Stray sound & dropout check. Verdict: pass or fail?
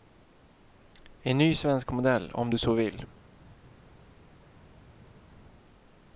pass